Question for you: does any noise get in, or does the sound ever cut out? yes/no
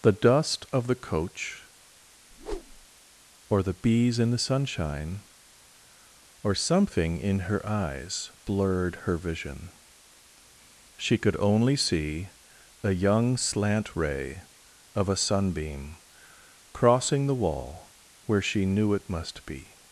yes